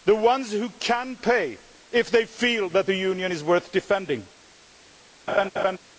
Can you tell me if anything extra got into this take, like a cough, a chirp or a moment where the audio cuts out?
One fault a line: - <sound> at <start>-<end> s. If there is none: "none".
- laugh at 5.3-5.8 s